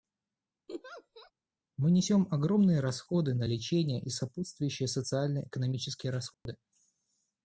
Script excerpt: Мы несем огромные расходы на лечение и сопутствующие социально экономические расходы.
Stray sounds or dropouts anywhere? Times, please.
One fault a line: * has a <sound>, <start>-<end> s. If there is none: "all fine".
* has a laugh, 0.7-1.3 s
* has a dropout, 6.3-6.5 s